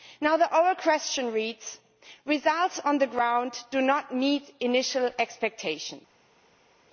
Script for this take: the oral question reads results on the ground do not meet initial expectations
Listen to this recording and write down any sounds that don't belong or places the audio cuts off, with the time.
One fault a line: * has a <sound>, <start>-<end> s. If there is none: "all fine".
all fine